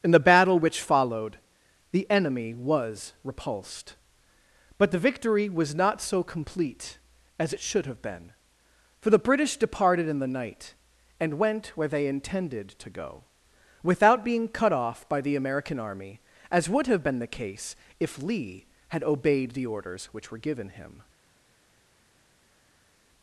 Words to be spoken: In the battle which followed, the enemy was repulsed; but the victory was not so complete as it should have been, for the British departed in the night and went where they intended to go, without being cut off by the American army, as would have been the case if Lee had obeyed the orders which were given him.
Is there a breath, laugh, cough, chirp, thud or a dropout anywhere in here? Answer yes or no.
no